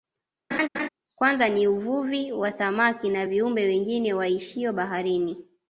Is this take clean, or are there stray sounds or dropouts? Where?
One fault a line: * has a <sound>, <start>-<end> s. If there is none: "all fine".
* has a laugh, 0.5-0.9 s